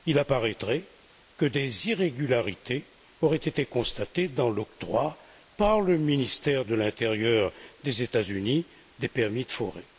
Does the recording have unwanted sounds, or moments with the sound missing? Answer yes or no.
no